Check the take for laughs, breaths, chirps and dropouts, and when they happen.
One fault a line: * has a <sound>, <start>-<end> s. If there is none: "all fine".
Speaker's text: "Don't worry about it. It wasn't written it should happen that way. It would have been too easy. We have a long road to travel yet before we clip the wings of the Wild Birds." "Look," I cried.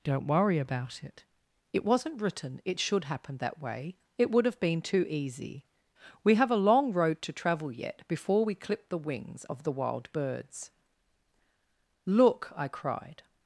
all fine